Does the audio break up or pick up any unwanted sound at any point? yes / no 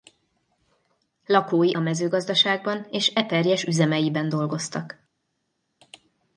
no